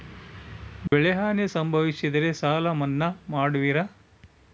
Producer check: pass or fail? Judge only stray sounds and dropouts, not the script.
fail